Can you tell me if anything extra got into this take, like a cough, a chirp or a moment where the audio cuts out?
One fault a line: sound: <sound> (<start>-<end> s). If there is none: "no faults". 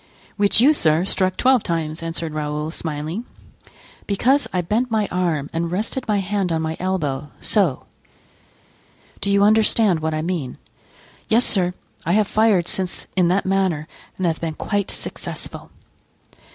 no faults